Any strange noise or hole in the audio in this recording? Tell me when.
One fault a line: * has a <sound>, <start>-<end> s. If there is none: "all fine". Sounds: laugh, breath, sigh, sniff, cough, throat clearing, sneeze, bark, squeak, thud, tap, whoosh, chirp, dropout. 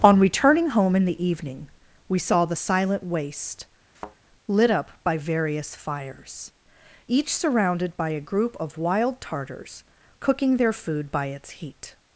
* has a thud, 3.9-4.2 s